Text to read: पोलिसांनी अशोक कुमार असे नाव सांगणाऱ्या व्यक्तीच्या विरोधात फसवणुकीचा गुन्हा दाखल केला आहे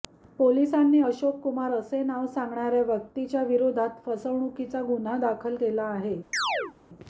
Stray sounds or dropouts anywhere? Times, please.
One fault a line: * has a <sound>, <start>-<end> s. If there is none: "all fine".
* has a chirp, 6.3-6.7 s